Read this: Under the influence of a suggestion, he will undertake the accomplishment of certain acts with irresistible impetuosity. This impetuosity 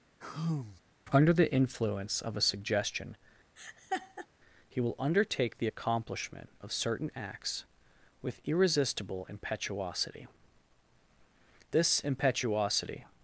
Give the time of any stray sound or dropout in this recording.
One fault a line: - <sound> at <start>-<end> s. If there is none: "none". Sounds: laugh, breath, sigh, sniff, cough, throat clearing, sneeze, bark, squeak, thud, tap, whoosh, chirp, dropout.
- sigh at 0.2-0.8 s
- laugh at 3.6-4.3 s